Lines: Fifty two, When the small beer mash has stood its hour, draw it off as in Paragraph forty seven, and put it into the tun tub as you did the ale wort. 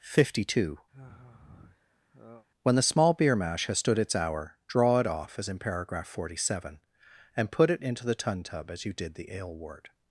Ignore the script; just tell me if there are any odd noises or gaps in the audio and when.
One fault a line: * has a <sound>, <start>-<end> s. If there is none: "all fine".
* has a sigh, 0.9-2.5 s